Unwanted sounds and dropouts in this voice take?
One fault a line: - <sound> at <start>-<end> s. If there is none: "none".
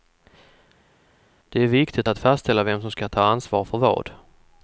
none